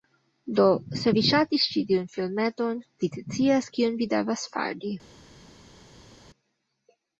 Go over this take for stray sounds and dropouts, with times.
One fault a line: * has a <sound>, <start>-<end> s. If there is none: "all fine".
all fine